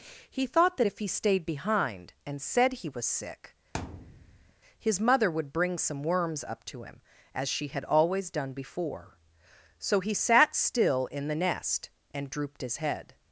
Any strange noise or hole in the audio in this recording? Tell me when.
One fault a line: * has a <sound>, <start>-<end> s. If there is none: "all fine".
* has a thud, 3.7-4.5 s